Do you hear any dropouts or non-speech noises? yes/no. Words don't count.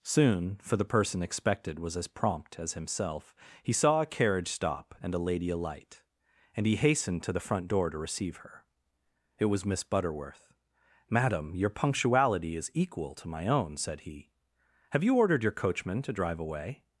no